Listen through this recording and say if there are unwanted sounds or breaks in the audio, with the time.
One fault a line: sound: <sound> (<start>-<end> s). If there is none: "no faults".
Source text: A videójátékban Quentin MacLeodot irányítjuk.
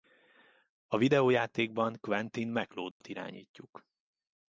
sound: dropout (2.9-3.0 s)